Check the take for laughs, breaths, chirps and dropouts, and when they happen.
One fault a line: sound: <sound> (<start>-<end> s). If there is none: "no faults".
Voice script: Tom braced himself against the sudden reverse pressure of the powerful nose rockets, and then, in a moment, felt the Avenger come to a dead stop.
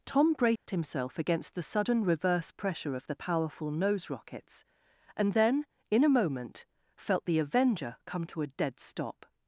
sound: dropout (0.6-0.7 s)